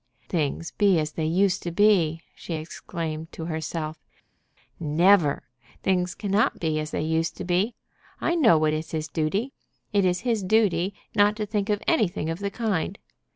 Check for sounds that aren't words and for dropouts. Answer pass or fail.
pass